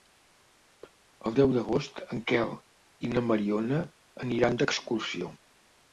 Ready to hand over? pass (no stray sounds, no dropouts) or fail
pass